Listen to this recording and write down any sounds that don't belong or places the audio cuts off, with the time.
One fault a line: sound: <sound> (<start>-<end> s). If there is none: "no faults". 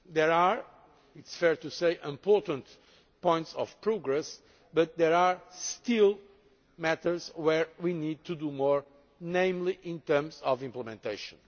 no faults